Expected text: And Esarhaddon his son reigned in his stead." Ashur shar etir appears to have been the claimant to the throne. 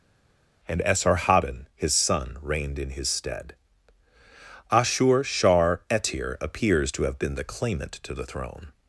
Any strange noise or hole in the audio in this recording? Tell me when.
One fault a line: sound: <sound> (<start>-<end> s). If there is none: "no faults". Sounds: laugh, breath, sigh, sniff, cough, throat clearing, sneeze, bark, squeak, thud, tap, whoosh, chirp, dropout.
no faults